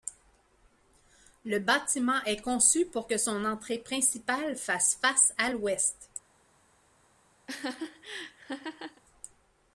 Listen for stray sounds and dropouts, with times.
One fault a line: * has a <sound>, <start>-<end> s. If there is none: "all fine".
* has a laugh, 7.5-9.0 s